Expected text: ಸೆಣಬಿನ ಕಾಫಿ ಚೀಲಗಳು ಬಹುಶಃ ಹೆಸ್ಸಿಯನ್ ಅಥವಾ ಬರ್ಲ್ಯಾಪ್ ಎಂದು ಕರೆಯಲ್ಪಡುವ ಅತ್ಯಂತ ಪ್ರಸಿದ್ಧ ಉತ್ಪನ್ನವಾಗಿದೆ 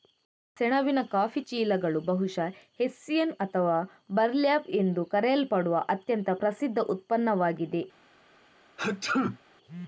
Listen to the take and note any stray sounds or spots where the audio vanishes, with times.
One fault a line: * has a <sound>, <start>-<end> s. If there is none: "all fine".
* has a sneeze, 8.8-9.4 s